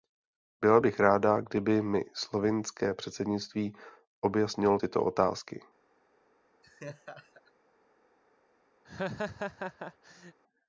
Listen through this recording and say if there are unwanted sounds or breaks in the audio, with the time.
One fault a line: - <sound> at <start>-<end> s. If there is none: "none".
- laugh at 6.6-7.5 s
- laugh at 8.8-10.4 s